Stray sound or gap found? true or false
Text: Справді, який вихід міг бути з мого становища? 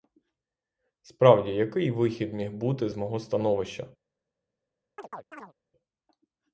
true